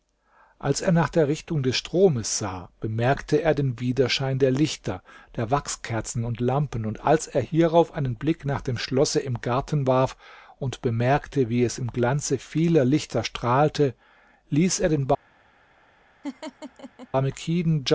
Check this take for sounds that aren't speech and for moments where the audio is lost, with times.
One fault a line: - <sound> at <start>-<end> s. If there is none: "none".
- laugh at 16.2-17.1 s